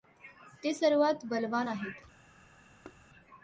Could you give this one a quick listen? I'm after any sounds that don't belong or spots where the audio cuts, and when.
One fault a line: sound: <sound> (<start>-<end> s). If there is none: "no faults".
sound: thud (2.8-3.1 s)